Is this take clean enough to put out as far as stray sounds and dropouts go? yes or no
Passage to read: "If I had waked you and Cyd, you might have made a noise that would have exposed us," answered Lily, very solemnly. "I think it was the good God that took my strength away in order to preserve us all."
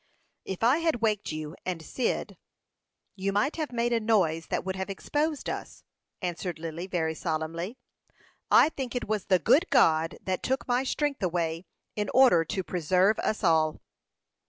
yes